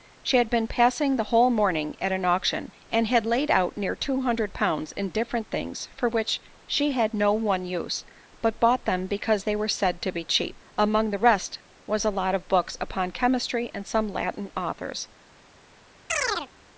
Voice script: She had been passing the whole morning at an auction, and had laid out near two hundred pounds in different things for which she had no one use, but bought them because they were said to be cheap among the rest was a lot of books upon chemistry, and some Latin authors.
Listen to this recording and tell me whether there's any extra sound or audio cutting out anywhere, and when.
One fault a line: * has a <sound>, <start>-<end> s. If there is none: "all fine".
* has a chirp, 16.1-16.5 s